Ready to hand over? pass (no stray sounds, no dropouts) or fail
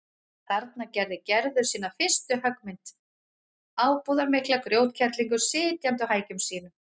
pass